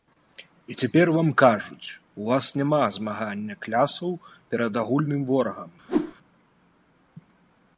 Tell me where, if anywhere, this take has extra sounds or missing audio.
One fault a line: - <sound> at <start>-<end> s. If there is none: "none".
- whoosh at 5.9-6.1 s